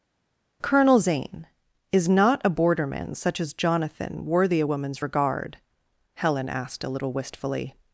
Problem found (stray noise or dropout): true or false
false